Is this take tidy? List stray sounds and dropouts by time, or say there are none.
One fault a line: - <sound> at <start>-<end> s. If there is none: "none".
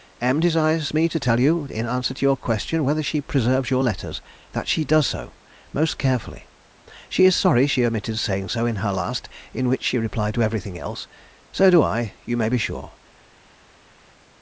none